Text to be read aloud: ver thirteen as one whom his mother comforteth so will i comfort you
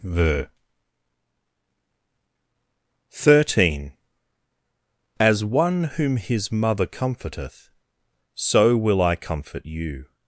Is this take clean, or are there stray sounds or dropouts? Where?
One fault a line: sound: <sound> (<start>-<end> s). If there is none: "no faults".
no faults